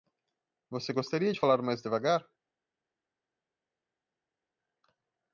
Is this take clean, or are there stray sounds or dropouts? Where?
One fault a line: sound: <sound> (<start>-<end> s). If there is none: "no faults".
no faults